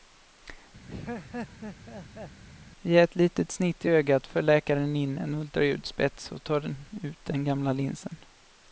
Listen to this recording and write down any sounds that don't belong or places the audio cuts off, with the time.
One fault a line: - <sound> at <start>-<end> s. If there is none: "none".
- laugh at 0.9-2.4 s